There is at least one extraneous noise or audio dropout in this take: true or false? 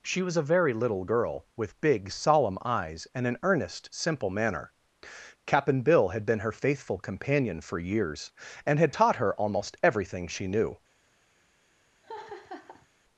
true